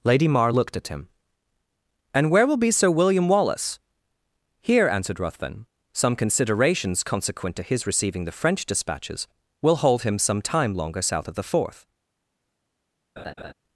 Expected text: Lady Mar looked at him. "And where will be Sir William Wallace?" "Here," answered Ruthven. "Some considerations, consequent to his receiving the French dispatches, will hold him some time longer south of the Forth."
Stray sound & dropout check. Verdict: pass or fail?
fail